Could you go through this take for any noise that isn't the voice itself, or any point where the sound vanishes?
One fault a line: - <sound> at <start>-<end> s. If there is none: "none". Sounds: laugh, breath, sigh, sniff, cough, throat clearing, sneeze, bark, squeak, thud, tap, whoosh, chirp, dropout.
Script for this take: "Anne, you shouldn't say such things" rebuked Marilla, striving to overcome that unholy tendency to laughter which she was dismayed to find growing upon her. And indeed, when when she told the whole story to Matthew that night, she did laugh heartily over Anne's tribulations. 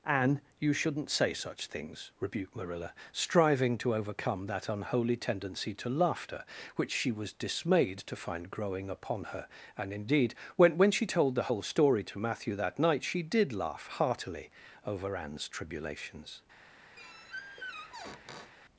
- squeak at 17.0-18.5 s